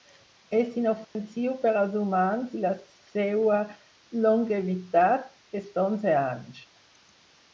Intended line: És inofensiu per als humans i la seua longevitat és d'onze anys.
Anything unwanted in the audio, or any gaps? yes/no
yes